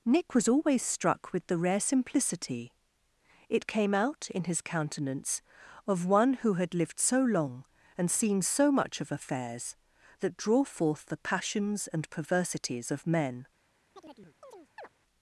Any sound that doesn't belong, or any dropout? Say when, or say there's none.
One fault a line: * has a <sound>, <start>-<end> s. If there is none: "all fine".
* has a chirp, 14.0-14.9 s